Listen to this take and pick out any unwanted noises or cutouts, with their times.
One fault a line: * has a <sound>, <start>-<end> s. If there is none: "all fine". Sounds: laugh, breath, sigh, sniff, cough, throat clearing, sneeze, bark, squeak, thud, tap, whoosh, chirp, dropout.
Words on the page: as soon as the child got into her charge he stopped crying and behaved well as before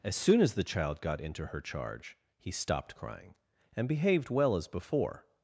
all fine